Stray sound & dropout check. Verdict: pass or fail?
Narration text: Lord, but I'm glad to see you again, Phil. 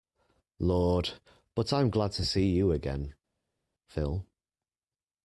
pass